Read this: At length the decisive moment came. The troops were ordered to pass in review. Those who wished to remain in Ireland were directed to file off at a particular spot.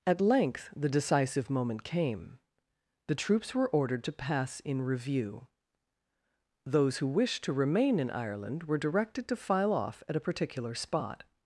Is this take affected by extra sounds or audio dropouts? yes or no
no